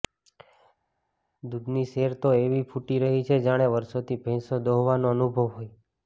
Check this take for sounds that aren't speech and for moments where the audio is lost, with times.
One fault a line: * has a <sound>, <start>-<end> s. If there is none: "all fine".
all fine